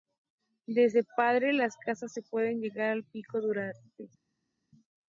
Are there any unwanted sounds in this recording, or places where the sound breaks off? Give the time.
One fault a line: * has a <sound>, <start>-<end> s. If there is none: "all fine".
all fine